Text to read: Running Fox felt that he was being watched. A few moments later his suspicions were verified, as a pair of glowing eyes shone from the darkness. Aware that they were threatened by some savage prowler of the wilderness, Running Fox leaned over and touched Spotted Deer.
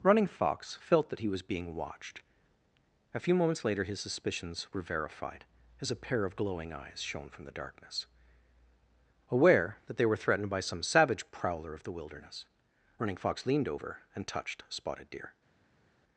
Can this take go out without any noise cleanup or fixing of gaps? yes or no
yes